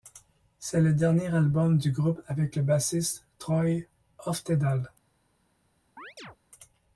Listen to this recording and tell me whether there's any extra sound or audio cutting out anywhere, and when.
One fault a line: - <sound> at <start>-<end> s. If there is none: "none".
- chirp at 6.0-6.4 s